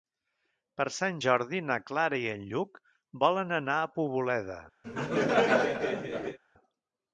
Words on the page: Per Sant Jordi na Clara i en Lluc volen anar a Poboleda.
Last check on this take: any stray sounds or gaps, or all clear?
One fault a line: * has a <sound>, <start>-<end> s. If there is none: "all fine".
* has a laugh, 4.8-6.4 s